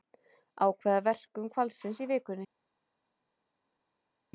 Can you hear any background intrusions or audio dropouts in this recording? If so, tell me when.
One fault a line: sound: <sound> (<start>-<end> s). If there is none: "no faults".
no faults